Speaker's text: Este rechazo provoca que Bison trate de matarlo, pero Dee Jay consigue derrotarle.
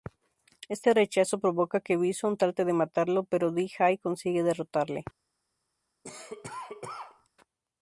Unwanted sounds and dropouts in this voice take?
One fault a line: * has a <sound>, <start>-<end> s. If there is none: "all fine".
* has a cough, 6.0-7.3 s